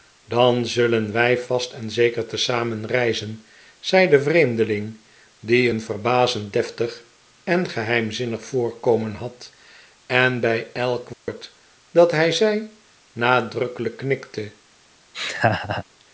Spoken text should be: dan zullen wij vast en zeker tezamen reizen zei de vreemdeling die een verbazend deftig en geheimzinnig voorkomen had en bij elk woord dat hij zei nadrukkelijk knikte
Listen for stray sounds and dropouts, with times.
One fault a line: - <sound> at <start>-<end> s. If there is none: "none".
- dropout at 11.1-11.3 s
- laugh at 15.1-15.8 s